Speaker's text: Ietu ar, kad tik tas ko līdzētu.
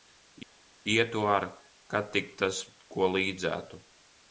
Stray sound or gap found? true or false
false